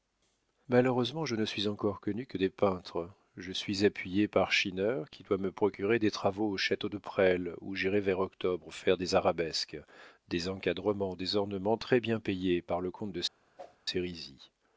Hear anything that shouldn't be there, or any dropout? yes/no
yes